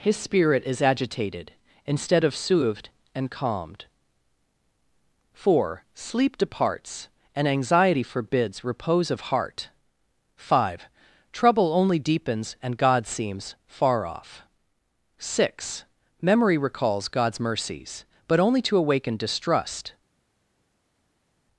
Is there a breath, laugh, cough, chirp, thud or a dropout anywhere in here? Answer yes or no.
no